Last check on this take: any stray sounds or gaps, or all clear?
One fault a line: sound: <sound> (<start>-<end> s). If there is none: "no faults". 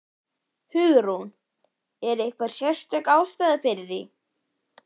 no faults